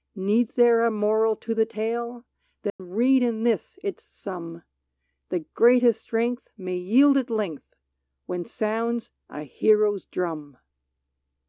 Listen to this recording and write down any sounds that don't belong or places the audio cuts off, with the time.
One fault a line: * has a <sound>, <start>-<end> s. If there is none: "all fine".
* has a dropout, 2.7-2.8 s